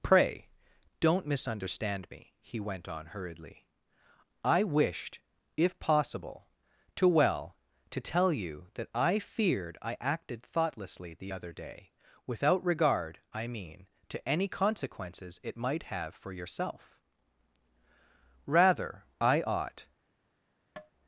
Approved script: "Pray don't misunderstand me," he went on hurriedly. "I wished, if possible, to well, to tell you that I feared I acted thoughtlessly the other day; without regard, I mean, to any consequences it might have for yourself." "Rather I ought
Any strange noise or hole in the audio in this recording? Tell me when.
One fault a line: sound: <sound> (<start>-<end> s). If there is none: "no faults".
sound: tap (20.8-20.9 s)